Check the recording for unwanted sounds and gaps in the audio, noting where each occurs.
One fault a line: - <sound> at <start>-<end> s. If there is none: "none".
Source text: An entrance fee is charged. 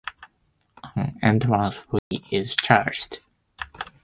- dropout at 2.0-2.1 s